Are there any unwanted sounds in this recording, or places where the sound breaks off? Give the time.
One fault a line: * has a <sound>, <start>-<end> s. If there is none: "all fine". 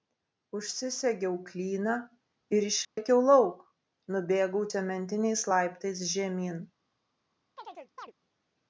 * has a dropout, 2.8-3.0 s
* has a chirp, 7.6-8.1 s